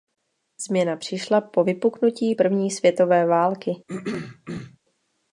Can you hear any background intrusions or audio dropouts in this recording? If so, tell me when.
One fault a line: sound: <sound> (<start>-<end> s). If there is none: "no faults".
sound: throat clearing (3.9-4.8 s)